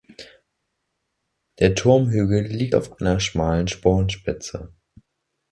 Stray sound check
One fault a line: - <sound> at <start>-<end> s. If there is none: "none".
none